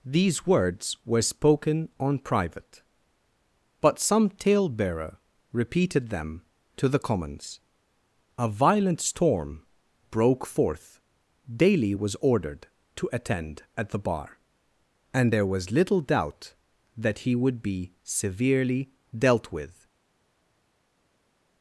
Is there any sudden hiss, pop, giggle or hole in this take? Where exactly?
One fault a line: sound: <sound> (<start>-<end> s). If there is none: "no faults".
no faults